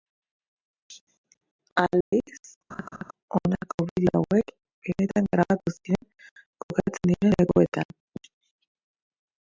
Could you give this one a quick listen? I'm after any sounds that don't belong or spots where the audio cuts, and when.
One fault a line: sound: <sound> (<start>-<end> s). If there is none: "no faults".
sound: dropout (2.0-2.1 s)
sound: laugh (2.7-3.1 s)